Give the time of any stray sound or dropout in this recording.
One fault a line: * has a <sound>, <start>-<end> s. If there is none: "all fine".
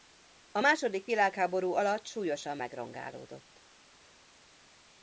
all fine